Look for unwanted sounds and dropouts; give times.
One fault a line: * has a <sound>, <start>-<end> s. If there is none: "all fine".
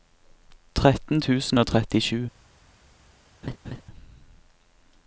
* has a laugh, 3.4-3.8 s